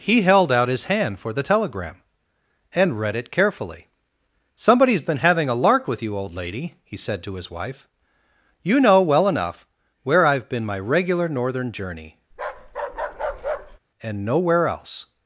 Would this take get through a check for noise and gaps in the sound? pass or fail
fail